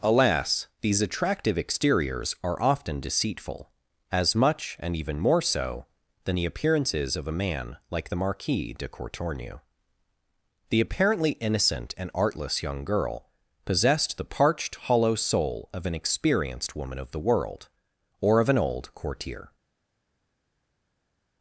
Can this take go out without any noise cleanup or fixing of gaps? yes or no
yes